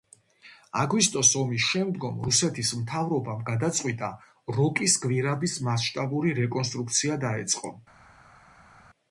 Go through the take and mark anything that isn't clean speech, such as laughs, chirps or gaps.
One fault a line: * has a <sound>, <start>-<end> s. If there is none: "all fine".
all fine